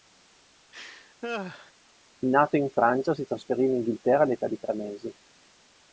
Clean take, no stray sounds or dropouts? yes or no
no